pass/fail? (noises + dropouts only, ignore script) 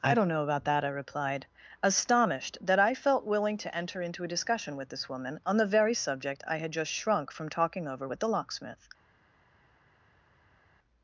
pass